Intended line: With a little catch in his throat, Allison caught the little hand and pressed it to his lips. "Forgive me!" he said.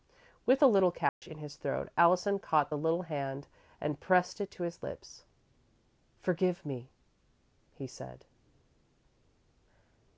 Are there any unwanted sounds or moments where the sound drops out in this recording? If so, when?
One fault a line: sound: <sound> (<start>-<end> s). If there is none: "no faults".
sound: dropout (1.1-1.2 s)